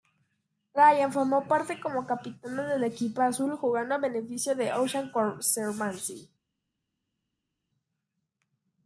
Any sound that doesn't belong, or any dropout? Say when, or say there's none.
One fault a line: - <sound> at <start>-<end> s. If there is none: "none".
none